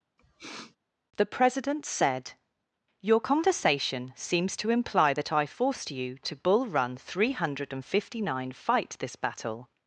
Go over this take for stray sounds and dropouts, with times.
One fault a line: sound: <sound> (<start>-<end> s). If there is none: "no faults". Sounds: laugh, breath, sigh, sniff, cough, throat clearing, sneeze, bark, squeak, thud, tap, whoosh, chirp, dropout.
sound: sniff (0.2-0.8 s)